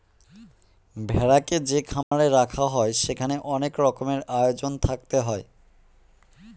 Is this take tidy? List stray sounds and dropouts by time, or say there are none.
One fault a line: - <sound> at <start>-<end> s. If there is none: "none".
- dropout at 2.0-2.1 s